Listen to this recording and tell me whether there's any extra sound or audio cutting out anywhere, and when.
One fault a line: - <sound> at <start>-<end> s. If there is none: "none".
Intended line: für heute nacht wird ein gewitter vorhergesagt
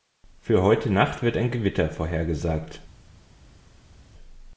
none